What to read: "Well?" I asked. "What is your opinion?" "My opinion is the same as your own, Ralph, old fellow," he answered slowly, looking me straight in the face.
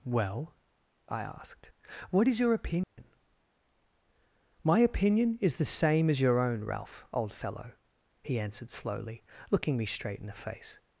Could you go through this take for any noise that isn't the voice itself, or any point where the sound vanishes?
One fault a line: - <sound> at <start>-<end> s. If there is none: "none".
- dropout at 2.8-3.0 s